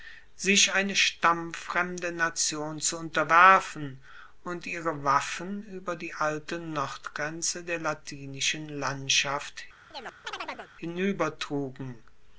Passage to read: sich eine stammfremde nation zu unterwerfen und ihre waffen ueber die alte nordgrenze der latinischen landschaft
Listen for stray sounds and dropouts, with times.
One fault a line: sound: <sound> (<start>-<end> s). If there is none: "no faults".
sound: chirp (9.9-10.7 s)